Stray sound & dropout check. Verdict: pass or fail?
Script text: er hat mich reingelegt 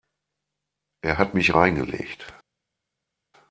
pass